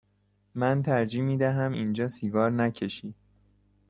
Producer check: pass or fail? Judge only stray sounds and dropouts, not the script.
pass